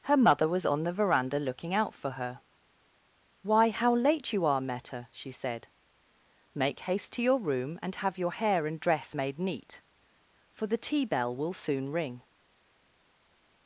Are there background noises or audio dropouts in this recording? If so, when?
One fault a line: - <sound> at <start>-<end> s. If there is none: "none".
none